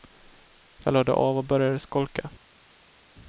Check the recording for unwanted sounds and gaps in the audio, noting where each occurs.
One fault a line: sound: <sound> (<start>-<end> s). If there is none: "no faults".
no faults